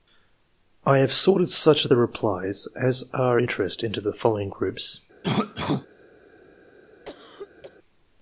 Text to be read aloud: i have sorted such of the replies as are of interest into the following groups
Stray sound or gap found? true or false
true